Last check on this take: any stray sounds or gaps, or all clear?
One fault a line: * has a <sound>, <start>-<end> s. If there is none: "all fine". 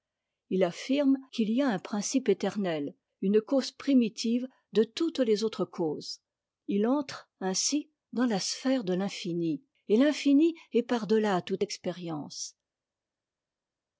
all fine